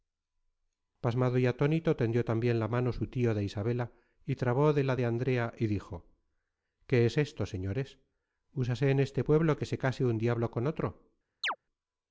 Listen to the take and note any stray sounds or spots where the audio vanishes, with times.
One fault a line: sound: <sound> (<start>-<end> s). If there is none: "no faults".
sound: chirp (11.4-11.6 s)